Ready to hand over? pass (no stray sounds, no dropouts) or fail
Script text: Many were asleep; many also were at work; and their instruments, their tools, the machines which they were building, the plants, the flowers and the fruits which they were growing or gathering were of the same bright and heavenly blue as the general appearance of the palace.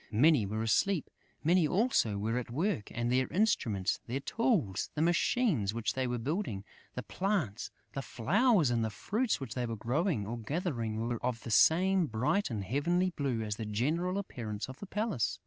pass